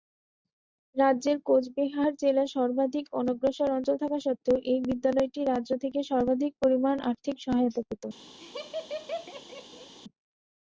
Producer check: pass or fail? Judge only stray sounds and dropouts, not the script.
fail